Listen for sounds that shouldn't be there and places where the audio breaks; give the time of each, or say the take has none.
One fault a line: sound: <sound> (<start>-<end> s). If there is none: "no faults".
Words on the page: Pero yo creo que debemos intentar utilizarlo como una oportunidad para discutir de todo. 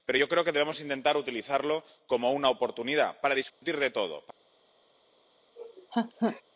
sound: dropout (3.5-3.6 s)
sound: laugh (5.6-6.4 s)